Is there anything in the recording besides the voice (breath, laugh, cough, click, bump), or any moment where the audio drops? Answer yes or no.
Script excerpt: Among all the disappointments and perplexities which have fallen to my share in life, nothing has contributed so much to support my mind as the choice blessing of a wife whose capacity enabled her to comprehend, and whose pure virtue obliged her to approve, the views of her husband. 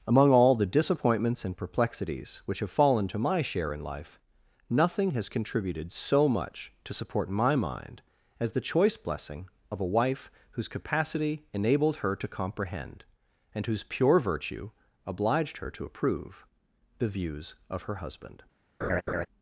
yes